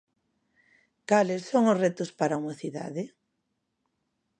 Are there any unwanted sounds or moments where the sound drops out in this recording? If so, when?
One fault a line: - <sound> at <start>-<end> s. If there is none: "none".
none